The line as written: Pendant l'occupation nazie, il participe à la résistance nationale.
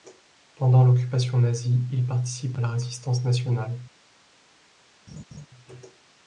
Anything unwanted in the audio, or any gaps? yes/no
yes